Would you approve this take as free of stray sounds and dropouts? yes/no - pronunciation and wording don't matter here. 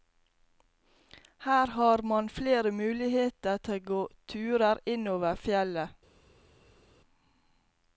yes